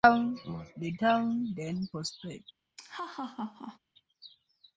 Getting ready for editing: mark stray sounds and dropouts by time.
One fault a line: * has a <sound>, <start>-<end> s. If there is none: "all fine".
* has a laugh, 2.8-3.8 s